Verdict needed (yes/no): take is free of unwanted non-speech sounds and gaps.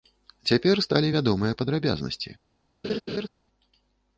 no